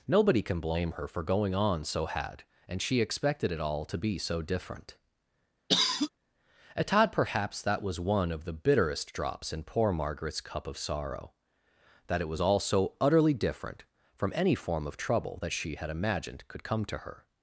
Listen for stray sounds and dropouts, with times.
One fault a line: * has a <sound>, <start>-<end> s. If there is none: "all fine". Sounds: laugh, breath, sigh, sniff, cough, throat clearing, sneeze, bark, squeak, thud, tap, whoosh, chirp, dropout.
* has a cough, 5.7-6.1 s